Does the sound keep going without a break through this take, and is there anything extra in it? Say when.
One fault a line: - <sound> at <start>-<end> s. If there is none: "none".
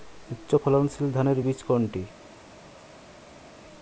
none